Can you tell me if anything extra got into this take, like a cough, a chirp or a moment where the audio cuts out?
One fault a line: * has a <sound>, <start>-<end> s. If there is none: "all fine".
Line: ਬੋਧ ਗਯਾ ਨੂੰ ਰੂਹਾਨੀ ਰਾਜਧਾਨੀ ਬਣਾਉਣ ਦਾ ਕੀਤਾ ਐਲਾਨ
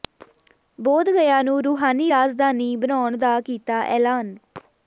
all fine